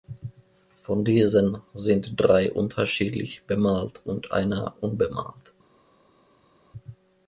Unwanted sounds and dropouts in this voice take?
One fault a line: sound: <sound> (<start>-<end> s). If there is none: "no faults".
no faults